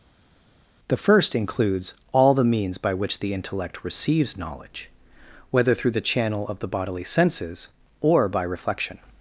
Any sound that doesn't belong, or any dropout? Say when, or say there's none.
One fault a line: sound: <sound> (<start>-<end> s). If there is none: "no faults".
no faults